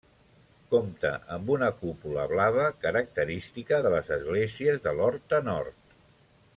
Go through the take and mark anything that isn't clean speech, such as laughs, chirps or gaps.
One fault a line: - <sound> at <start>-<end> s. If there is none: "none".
none